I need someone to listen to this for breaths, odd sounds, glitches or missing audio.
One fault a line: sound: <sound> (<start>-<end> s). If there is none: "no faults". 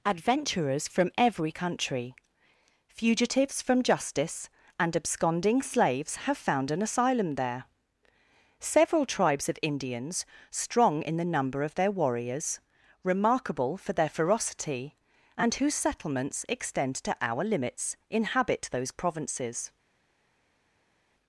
no faults